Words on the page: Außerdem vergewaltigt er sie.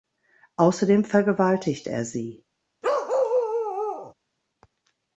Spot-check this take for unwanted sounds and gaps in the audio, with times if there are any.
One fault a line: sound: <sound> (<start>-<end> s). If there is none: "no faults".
sound: bark (2.8-4.1 s)